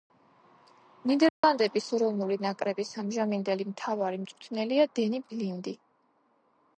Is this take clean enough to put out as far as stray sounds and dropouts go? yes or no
no